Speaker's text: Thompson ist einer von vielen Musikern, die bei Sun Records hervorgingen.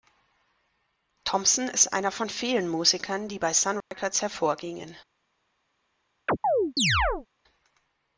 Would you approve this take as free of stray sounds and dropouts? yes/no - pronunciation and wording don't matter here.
no